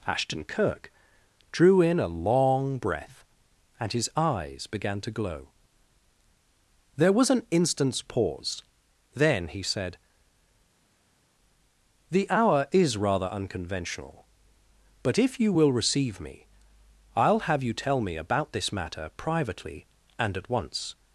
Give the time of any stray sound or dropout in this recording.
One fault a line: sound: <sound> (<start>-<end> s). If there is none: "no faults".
no faults